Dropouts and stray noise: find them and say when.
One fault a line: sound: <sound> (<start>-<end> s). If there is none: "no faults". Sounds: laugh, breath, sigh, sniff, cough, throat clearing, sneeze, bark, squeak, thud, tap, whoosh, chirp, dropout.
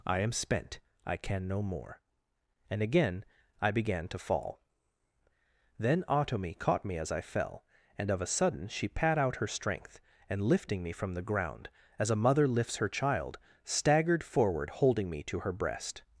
no faults